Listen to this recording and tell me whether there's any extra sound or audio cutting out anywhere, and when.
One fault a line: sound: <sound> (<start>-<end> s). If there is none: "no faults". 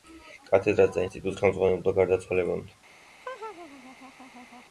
sound: laugh (3.2-4.6 s)